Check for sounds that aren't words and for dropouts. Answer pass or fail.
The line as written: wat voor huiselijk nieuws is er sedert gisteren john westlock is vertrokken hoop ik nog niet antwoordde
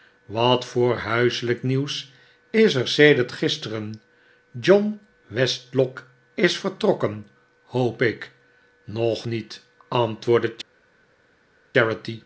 pass